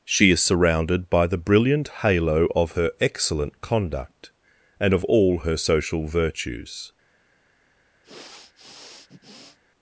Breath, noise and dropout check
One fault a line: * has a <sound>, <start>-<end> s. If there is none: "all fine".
* has a sniff, 8.0-9.6 s